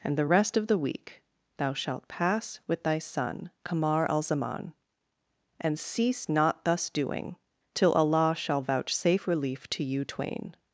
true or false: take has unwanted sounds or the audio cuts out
false